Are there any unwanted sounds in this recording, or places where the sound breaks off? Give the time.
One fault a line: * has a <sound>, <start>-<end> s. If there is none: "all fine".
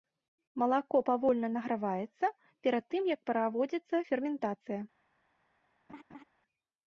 * has a laugh, 5.9-6.2 s